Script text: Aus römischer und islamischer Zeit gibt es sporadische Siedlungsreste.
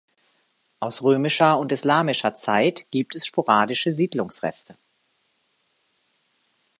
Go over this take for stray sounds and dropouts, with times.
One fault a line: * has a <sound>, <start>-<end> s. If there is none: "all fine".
all fine